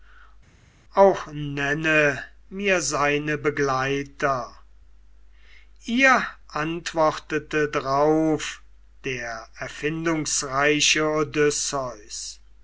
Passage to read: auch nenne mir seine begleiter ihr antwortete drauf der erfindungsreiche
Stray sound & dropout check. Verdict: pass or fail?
pass